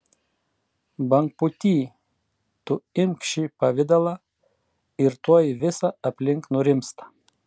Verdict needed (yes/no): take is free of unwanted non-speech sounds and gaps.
yes